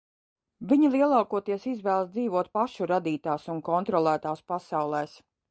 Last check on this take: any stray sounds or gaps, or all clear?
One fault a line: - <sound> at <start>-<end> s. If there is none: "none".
none